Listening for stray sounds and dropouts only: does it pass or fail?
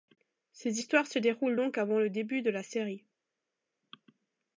pass